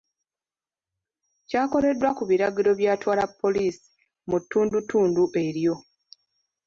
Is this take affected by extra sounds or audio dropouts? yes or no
no